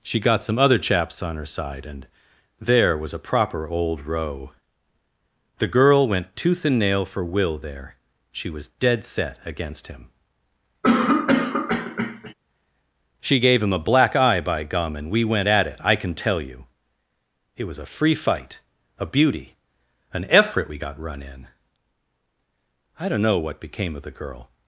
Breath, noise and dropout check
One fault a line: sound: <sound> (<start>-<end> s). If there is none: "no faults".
sound: cough (10.8-12.3 s)